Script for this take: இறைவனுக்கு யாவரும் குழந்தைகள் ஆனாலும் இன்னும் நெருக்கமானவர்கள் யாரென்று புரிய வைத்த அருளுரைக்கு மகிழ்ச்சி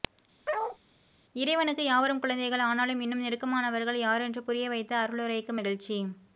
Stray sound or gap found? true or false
true